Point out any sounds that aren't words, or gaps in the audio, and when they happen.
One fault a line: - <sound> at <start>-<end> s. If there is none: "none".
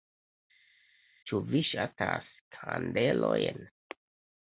none